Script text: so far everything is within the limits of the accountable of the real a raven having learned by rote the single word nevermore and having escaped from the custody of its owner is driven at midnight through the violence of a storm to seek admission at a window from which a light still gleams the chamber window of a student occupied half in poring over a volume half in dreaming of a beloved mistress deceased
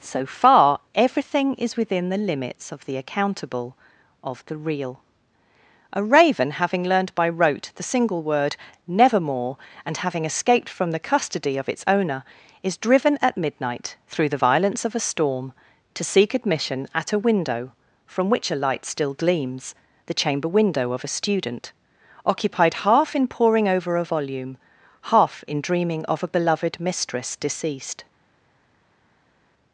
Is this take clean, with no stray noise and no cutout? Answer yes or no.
yes